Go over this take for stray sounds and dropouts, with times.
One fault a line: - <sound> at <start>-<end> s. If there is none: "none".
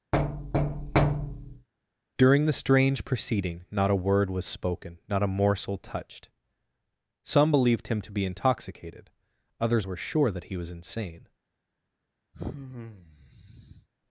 - thud at 0.1-1.7 s
- sigh at 12.3-13.9 s